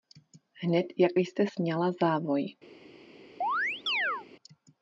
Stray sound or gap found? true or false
true